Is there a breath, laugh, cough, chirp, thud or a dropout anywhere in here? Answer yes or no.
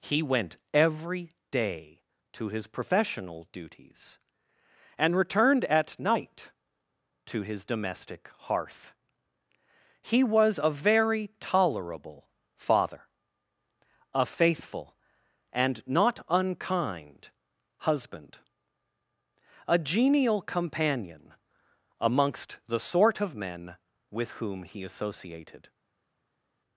no